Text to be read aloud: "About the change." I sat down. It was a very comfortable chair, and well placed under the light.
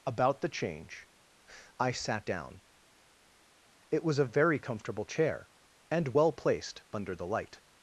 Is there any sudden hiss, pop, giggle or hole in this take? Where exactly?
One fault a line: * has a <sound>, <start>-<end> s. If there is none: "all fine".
all fine